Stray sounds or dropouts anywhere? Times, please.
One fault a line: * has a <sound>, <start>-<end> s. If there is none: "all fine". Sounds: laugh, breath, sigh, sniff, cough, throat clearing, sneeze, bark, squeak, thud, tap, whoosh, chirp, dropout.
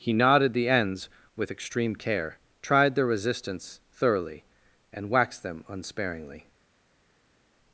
all fine